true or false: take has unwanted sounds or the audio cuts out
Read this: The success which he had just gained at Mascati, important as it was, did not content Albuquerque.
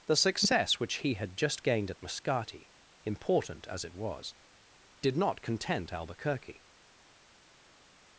false